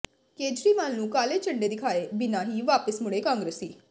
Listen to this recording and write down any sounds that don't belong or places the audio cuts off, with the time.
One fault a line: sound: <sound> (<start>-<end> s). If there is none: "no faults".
no faults